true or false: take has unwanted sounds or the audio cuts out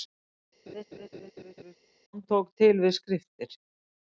true